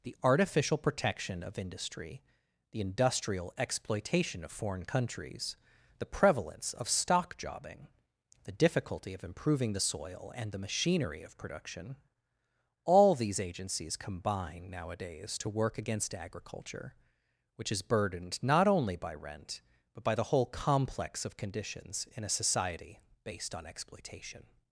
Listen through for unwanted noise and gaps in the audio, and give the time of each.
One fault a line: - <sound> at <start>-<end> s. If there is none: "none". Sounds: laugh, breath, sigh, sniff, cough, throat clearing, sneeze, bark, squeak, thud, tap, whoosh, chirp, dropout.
none